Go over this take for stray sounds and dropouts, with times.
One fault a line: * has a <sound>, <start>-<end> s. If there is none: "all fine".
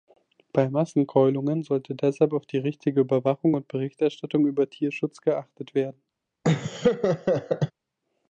* has a laugh, 6.4-7.7 s